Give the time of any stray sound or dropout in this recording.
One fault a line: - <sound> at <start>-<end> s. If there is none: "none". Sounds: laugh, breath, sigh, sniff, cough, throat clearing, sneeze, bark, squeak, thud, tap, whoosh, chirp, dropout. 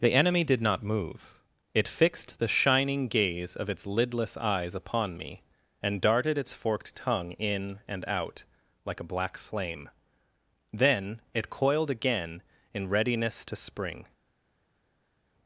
none